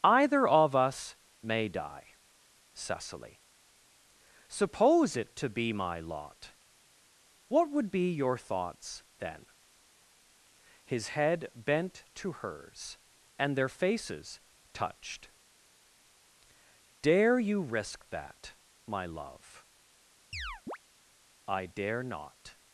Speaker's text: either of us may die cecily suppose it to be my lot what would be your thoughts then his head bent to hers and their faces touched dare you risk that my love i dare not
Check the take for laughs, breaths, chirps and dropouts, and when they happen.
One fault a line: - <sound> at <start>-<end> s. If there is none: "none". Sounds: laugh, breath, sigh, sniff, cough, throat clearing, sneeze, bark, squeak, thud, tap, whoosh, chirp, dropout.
- chirp at 20.3-20.8 s